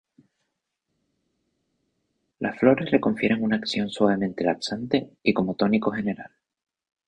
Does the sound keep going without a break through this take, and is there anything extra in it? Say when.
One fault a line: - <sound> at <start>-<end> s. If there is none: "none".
none